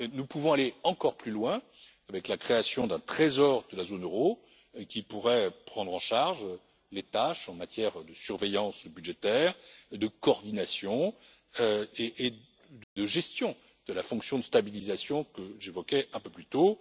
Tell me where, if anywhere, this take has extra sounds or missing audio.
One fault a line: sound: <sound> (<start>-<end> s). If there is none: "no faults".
sound: dropout (12.8-13.0 s)